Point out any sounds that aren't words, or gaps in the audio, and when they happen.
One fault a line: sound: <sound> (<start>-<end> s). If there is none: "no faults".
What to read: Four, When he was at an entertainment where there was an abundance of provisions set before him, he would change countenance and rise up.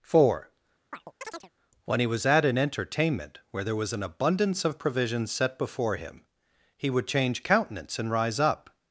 sound: chirp (0.9-1.5 s)